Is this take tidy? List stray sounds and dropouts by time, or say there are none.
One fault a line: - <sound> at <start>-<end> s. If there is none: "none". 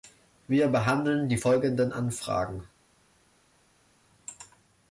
none